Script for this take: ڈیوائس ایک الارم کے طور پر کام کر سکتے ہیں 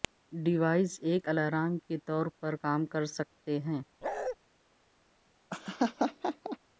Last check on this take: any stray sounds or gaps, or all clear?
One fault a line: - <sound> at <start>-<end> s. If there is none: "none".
- bark at 4.0-4.4 s
- laugh at 5.5-6.6 s